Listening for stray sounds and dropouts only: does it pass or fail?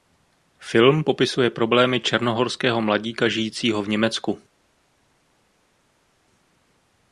pass